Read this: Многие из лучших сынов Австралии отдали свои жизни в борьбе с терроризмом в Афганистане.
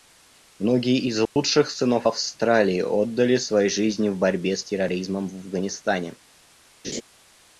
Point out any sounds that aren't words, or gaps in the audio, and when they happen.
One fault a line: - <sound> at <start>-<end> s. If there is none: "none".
- dropout at 1.3-1.4 s
- laugh at 6.8-7.0 s